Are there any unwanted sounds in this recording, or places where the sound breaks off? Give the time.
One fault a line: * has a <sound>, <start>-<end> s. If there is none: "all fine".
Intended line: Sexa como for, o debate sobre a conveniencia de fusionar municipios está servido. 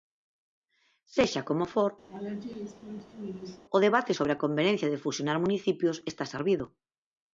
* has a laugh, 2.1-3.6 s